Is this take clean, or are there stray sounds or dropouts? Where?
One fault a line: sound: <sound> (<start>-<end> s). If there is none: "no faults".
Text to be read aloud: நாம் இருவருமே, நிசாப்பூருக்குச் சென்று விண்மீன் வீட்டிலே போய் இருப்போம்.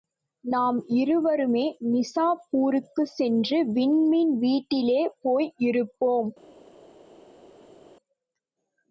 no faults